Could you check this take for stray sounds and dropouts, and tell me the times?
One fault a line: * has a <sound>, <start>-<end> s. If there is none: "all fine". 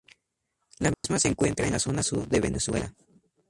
* has a dropout, 0.9-1.0 s